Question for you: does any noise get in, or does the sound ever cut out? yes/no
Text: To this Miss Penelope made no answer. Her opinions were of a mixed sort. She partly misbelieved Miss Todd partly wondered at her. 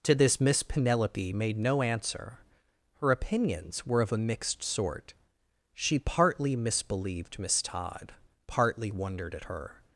no